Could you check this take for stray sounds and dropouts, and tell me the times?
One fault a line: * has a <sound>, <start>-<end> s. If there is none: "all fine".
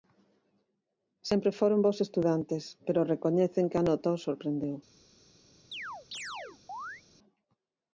* has a chirp, 5.7-7.0 s